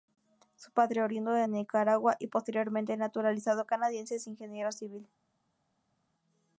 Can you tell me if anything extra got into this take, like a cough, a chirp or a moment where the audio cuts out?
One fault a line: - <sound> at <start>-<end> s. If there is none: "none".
none